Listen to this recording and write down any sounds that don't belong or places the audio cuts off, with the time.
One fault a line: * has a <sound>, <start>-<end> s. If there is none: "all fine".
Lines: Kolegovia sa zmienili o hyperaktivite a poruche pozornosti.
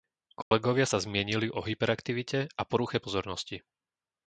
* has a dropout, 0.4-0.5 s